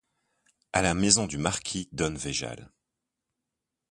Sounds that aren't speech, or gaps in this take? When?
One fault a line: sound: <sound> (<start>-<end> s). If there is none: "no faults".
no faults